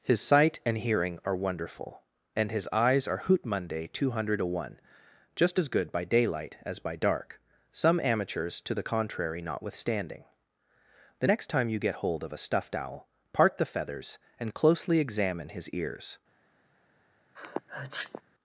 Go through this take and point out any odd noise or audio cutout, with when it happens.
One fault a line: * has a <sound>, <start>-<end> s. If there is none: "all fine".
* has a sneeze, 17.4-18.2 s